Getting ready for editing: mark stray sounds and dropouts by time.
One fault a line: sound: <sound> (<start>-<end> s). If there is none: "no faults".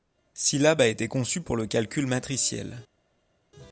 no faults